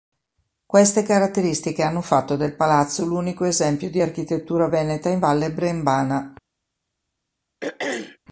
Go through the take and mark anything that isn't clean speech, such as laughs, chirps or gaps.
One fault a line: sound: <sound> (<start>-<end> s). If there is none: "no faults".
sound: throat clearing (7.6-8.2 s)